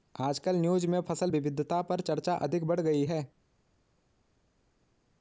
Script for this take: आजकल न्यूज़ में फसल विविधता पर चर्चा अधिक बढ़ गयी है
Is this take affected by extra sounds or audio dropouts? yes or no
no